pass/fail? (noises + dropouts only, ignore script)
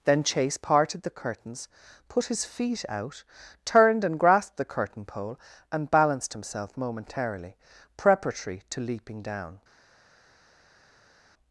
pass